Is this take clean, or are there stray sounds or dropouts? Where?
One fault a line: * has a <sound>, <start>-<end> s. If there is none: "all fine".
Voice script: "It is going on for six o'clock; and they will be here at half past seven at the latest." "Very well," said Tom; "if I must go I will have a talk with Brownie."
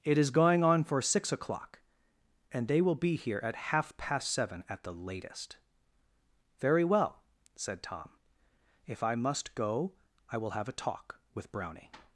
all fine